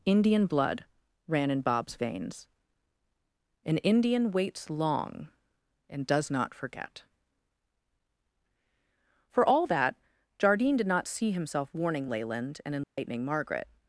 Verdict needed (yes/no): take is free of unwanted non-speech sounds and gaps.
no